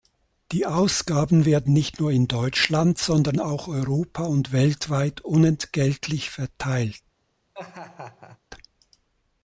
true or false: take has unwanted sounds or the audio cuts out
true